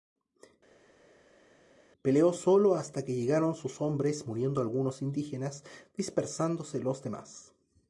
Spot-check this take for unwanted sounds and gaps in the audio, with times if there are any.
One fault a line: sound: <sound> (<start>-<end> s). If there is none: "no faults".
no faults